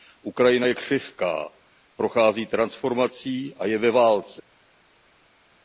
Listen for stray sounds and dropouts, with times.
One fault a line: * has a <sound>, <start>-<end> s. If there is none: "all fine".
all fine